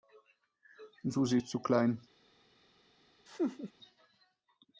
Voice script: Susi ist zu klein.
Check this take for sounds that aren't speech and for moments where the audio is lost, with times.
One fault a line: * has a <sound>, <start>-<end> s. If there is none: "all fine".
* has a laugh, 3.3-3.7 s